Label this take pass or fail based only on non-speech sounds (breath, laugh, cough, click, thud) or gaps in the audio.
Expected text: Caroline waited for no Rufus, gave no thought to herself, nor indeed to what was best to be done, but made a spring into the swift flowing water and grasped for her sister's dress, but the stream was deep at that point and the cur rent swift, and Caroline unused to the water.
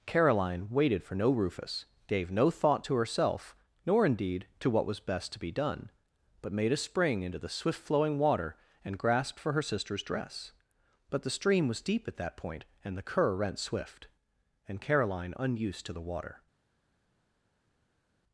pass